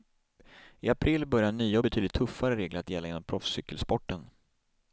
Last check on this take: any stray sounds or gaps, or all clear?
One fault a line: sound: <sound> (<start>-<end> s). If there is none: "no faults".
no faults